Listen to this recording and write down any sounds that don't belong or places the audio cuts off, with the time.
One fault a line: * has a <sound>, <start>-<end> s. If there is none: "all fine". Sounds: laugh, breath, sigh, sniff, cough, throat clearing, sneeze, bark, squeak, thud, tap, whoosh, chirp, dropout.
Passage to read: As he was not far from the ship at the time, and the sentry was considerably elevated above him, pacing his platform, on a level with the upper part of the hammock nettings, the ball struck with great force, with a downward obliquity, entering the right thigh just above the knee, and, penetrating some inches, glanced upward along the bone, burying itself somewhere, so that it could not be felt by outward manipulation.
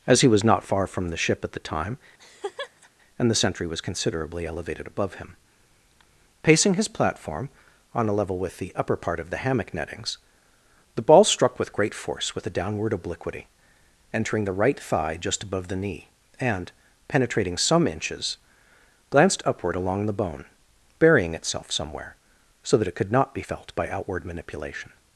* has a laugh, 2.2-2.9 s